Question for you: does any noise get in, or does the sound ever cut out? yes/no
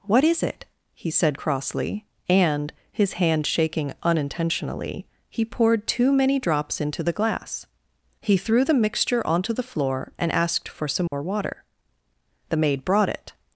yes